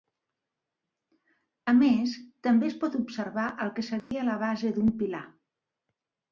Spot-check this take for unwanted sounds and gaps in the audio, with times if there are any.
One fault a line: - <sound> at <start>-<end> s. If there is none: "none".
- dropout at 4.0-4.1 s